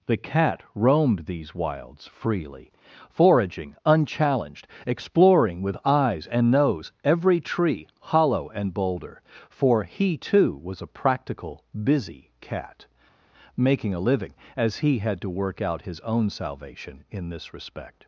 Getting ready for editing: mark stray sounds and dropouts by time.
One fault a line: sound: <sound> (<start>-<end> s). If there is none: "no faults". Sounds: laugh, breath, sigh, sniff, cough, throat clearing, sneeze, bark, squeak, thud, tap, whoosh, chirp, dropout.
no faults